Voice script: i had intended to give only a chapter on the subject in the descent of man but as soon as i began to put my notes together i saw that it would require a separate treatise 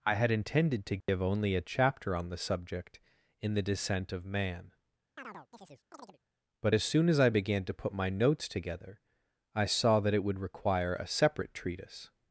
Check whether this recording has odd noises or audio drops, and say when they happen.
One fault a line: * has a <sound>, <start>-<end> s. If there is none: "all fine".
* has a dropout, 1.0-1.1 s
* has a chirp, 5.2-6.2 s